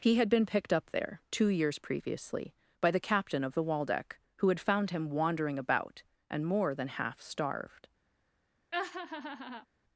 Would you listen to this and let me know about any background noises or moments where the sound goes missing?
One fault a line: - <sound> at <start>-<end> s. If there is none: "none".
- laugh at 8.7-9.7 s